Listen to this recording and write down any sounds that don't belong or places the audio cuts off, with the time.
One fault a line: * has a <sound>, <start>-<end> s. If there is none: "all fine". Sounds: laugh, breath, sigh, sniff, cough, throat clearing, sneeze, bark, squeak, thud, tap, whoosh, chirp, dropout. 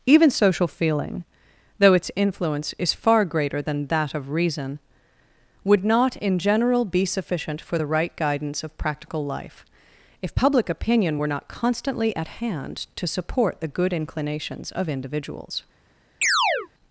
* has a chirp, 16.2-16.7 s